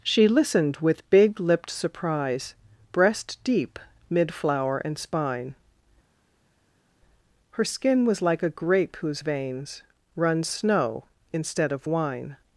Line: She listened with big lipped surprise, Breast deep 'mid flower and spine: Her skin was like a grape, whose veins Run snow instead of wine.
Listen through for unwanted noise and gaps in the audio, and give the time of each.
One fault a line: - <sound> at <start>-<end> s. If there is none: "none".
none